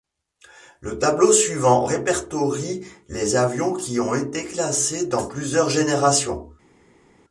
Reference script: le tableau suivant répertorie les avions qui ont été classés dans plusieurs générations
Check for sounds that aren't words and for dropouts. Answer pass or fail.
pass